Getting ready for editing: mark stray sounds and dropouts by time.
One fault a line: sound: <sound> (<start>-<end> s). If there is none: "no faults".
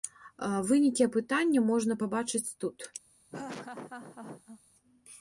sound: laugh (3.3-4.6 s)